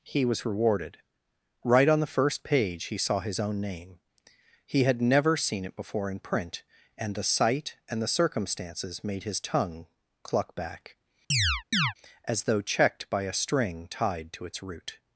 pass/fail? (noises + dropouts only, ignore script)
fail